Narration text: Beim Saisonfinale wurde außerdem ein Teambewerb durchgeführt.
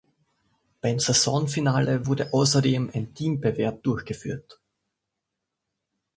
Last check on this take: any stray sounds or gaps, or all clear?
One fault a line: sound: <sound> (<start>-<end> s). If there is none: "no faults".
no faults